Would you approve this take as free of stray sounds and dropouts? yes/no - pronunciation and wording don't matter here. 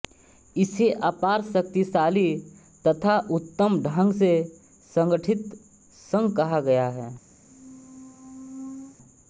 no